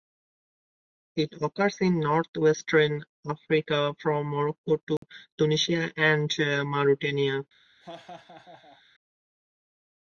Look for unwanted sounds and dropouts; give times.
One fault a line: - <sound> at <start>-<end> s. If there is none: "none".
- dropout at 5.0-5.0 s
- laugh at 7.8-8.8 s